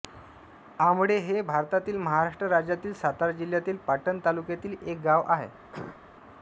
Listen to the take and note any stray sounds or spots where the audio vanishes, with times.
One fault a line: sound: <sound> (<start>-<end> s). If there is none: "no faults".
sound: cough (5.7-6.0 s)